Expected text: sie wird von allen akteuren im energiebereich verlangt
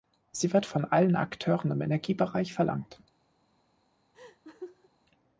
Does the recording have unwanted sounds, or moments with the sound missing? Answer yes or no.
yes